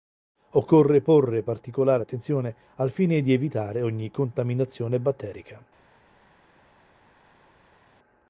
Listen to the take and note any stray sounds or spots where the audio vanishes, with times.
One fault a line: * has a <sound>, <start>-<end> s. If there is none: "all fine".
all fine